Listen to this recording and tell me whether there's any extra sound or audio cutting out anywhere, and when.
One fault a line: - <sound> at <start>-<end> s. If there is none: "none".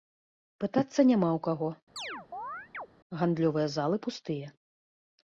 - chirp at 2.0-2.9 s